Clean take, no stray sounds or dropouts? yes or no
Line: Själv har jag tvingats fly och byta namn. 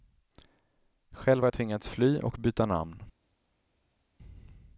yes